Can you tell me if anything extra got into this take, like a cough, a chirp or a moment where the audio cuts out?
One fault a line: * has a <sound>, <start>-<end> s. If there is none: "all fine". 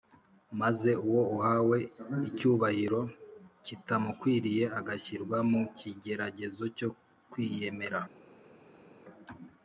all fine